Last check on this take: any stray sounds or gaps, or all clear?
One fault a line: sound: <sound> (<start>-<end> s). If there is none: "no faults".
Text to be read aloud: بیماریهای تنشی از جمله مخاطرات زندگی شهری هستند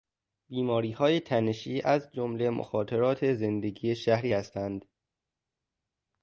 no faults